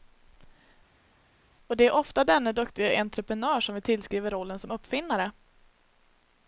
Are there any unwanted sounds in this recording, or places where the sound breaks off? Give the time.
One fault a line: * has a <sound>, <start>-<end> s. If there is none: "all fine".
all fine